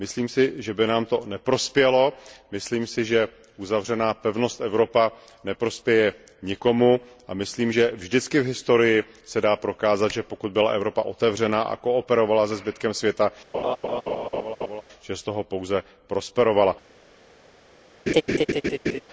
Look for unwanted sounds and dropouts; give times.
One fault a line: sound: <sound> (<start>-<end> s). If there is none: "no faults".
sound: laugh (13.5-14.8 s)
sound: laugh (18.1-19.0 s)